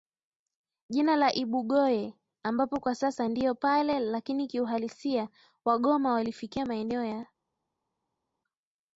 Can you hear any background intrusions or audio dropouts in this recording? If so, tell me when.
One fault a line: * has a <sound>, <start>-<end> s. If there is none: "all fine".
all fine